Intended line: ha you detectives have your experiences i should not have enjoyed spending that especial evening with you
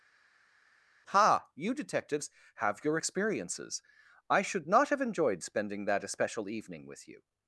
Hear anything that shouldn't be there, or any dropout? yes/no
no